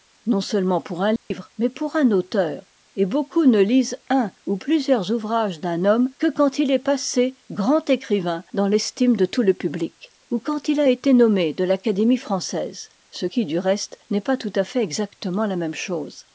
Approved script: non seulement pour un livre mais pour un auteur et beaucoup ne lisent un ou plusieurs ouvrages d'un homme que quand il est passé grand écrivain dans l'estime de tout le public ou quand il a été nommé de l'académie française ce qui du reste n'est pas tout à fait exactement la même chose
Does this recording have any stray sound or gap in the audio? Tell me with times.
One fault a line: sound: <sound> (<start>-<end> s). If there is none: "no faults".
sound: dropout (1.2-1.3 s)